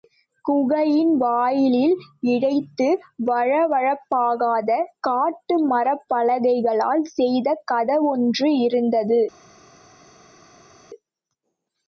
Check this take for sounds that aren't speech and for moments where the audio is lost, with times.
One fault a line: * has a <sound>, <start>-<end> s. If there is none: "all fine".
all fine